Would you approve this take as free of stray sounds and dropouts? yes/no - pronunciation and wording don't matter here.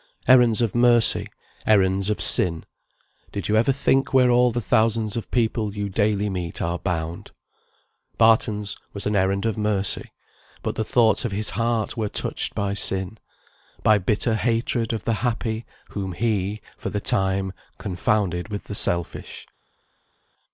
yes